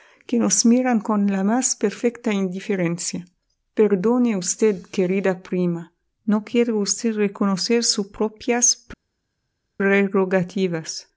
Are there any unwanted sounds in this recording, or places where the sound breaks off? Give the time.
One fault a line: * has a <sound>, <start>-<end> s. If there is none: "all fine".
all fine